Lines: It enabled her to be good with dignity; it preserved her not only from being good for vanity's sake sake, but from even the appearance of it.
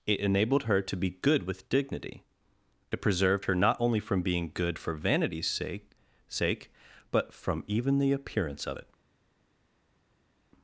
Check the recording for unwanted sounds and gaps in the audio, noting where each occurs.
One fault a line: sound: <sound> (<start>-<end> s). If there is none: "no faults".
no faults